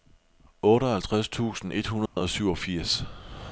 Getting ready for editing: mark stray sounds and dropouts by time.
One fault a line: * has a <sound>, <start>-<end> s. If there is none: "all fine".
* has a dropout, 2.1-2.2 s